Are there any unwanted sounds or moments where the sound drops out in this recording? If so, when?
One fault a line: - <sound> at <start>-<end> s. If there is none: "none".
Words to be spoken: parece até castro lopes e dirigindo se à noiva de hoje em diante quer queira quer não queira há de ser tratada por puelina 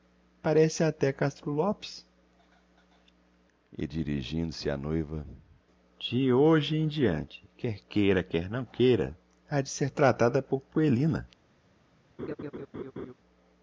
- laugh at 12.2-13.1 s